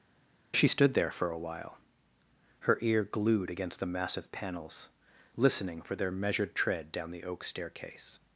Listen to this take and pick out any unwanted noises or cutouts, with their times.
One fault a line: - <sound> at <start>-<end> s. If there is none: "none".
none